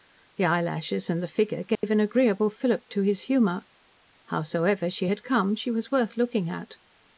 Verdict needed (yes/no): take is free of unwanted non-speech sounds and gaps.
no